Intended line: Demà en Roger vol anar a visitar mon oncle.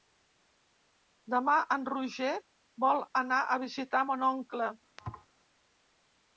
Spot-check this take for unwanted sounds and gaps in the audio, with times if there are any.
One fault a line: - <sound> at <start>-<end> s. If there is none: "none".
- thud at 5.0-5.3 s